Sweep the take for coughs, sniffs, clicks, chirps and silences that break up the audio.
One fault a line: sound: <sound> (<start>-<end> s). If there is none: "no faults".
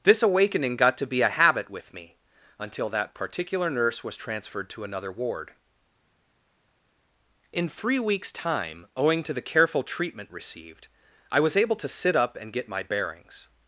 no faults